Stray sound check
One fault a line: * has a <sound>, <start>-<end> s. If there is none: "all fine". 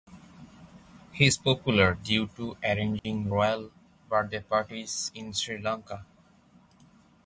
* has a dropout, 3.0-3.0 s